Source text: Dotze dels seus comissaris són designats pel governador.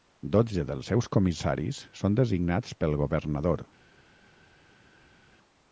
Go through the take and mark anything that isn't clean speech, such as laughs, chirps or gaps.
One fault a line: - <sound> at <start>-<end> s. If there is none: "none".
none